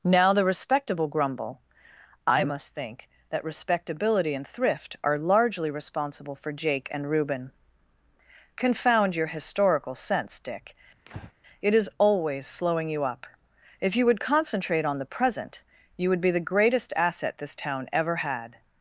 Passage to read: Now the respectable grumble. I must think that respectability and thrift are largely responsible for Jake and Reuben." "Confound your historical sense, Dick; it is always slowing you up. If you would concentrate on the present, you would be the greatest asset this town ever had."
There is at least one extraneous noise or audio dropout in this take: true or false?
true